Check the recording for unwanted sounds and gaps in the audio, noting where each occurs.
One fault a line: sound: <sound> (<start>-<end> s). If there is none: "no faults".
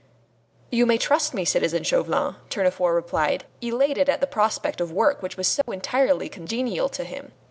sound: dropout (5.6-5.7 s)